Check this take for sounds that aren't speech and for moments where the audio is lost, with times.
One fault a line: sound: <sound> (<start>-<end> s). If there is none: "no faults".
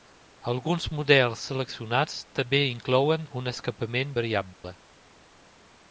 sound: dropout (4.5-4.6 s)